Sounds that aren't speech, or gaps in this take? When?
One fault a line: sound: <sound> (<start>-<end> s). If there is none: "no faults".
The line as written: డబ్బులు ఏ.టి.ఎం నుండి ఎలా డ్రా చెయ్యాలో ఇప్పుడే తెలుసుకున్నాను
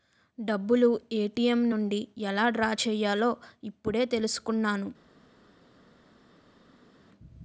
no faults